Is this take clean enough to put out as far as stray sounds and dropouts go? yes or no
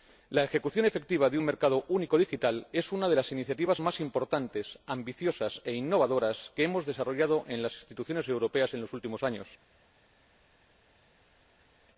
yes